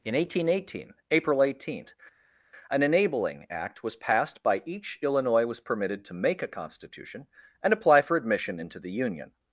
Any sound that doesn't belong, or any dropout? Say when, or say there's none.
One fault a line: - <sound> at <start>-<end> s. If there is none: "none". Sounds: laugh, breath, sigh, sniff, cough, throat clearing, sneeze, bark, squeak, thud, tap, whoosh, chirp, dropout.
none